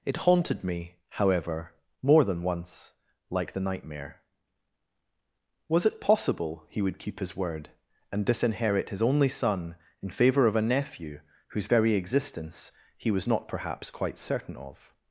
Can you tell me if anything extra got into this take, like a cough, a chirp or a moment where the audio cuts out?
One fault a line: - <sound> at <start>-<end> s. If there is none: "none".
none